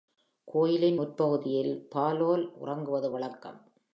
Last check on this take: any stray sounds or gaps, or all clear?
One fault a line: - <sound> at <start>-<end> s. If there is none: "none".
none